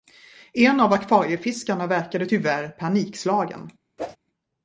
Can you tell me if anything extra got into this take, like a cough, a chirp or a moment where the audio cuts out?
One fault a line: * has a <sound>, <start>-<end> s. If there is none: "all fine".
* has a whoosh, 4.0-4.2 s